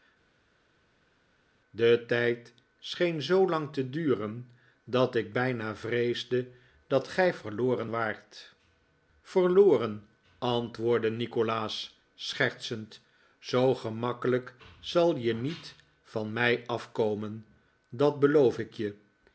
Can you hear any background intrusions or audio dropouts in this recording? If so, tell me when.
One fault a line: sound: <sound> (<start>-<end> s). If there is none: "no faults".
no faults